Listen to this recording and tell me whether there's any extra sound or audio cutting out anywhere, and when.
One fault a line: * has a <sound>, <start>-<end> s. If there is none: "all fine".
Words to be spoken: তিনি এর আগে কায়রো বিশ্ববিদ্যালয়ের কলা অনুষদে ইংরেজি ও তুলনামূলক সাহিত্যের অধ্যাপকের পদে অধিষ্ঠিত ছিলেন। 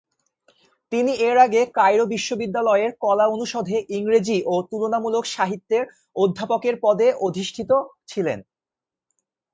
all fine